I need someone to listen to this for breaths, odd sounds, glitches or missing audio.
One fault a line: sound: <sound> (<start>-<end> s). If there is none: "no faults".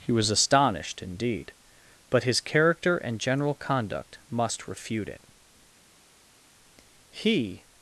no faults